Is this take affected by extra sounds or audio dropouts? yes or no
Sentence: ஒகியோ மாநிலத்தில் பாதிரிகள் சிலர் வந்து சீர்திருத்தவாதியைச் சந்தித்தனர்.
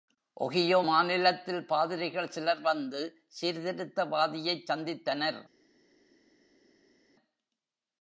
no